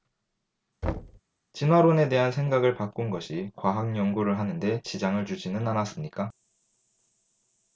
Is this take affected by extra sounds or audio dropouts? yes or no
yes